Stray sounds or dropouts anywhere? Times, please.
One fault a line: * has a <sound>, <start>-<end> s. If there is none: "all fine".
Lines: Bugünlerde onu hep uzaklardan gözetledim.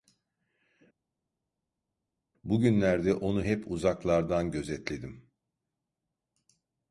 all fine